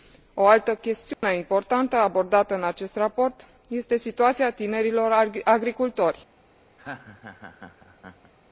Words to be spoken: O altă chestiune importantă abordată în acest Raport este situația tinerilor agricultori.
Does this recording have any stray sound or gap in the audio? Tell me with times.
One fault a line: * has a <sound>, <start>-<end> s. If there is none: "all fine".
* has a dropout, 1.1-1.2 s
* has a laugh, 6.8-8.3 s